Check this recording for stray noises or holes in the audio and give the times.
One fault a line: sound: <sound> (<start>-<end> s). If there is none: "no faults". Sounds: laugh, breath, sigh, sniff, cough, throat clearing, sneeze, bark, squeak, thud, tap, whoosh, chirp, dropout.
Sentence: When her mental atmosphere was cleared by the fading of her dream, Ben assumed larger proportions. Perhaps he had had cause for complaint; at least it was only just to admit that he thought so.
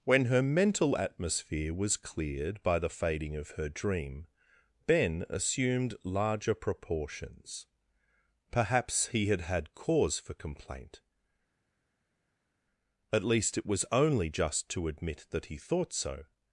no faults